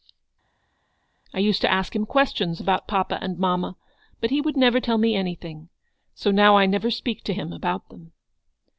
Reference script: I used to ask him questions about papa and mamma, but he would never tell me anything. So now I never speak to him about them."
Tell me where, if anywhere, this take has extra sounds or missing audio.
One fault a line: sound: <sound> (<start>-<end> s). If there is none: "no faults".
no faults